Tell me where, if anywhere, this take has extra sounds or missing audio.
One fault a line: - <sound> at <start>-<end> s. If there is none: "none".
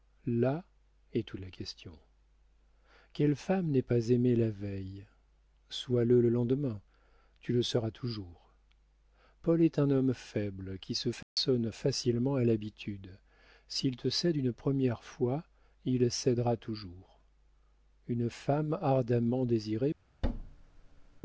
- dropout at 11.2-11.4 s
- thud at 20.2-21.2 s